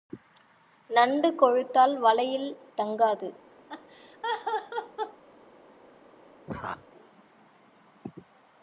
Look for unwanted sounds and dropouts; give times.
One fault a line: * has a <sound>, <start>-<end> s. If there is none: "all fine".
* has a laugh, 3.7-5.2 s
* has a laugh, 6.5-6.9 s